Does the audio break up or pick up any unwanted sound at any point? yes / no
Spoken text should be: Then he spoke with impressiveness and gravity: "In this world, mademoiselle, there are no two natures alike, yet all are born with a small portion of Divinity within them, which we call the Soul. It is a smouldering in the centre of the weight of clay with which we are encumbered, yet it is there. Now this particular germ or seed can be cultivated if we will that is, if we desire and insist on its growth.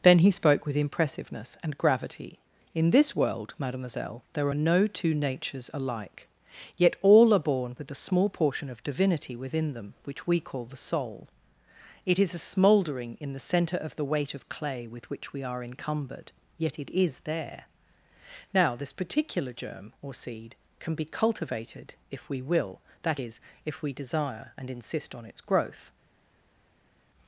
no